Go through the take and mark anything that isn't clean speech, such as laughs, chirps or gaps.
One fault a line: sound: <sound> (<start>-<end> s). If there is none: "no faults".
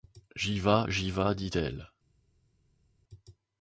no faults